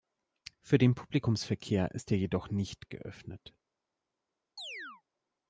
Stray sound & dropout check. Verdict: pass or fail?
fail